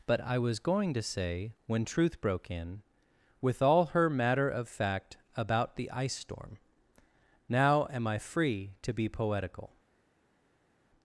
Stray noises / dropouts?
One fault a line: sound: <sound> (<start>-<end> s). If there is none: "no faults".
no faults